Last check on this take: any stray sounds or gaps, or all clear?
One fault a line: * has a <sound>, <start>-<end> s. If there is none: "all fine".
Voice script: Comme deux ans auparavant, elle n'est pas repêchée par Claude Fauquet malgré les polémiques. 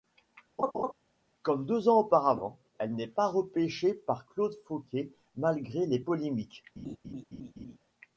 * has a laugh, 0.6-0.9 s
* has a laugh, 6.8-7.8 s